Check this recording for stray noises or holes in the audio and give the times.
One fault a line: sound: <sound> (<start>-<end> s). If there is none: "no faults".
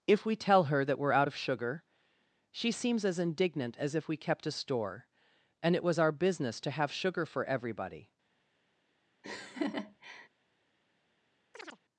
sound: laugh (9.2-10.3 s)
sound: chirp (11.5-11.8 s)